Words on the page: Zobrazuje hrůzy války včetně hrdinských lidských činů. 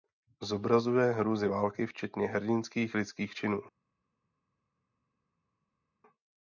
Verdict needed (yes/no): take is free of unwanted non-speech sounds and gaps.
yes